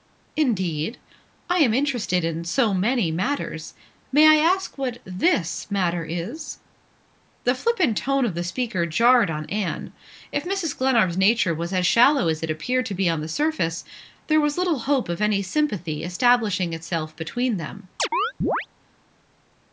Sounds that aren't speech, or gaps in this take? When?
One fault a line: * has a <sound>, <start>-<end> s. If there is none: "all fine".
* has a chirp, 18.0-18.7 s